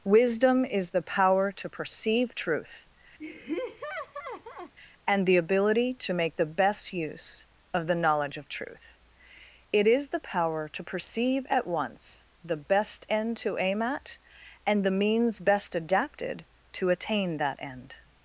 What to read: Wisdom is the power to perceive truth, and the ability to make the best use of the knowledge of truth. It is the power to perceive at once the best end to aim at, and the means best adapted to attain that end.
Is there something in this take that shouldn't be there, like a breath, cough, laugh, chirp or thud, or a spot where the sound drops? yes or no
yes